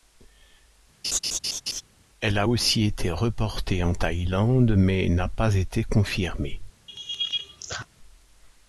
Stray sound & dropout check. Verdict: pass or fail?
fail